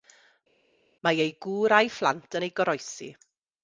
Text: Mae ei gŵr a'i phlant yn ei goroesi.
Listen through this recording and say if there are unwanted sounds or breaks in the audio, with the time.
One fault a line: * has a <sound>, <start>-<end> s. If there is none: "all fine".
all fine